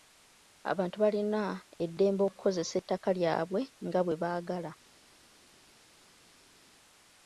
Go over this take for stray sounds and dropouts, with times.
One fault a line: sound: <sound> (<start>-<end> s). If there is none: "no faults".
no faults